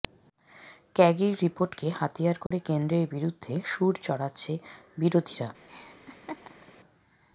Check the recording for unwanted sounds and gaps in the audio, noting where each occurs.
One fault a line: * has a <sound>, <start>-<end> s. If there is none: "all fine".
* has a dropout, 2.5-2.5 s
* has a laugh, 5.7-6.7 s